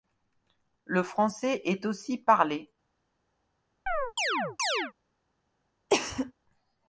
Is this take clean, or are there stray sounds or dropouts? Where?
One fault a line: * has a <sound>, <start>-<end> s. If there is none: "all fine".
* has a chirp, 3.9-4.9 s
* has a cough, 5.9-6.3 s